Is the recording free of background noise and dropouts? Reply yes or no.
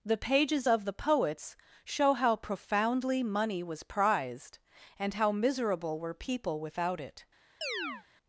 no